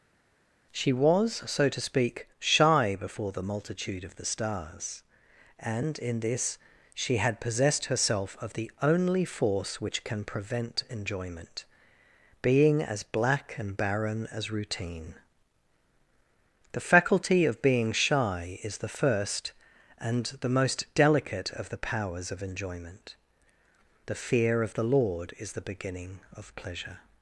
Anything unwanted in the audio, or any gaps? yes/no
no